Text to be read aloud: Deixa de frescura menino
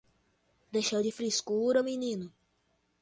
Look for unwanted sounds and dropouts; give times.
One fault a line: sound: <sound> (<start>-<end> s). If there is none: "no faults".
no faults